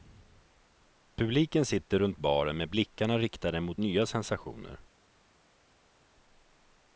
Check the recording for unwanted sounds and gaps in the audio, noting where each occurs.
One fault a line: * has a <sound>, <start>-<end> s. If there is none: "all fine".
all fine